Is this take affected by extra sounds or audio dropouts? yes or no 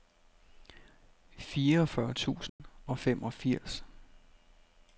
yes